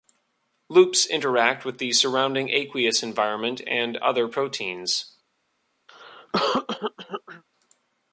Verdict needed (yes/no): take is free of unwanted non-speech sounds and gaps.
no